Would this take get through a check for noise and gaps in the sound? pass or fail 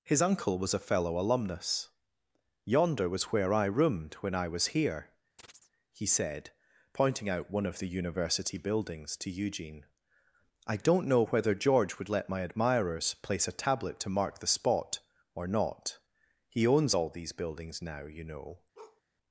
fail